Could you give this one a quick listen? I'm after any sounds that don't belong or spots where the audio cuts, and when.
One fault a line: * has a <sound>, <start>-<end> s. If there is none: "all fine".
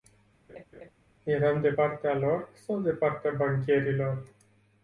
* has a laugh, 0.5-0.9 s